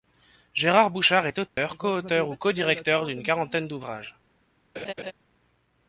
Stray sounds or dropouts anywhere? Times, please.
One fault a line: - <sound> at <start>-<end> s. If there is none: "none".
- dropout at 1.5-1.6 s
- laugh at 4.8-5.1 s